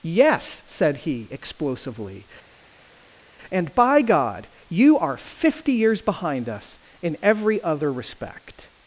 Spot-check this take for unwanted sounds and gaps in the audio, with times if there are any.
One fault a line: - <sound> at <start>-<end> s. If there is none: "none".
none